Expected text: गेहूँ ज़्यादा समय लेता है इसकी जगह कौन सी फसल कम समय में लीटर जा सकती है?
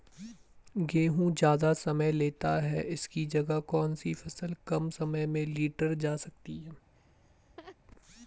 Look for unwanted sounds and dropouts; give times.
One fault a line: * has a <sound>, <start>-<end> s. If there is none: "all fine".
* has a laugh, 6.9-7.8 s